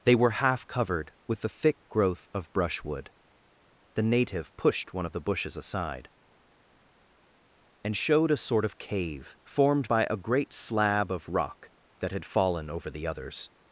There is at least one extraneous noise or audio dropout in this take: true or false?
false